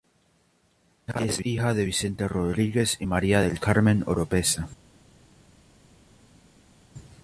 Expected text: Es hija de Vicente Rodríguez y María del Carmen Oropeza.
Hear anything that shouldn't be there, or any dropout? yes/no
no